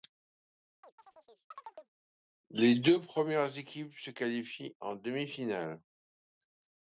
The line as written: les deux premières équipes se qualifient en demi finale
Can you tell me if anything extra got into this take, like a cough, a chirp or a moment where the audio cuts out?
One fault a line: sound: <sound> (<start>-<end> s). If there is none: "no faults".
sound: chirp (0.8-1.9 s)